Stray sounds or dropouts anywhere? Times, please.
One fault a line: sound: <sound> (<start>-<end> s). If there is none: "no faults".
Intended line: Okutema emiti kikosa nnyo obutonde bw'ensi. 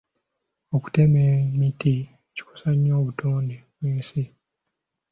no faults